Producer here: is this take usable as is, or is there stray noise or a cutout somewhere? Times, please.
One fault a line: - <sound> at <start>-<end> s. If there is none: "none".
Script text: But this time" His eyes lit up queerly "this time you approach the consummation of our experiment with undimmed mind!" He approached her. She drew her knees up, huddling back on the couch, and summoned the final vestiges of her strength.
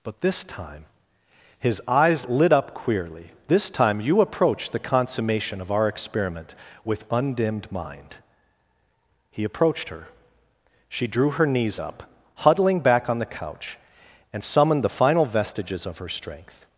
none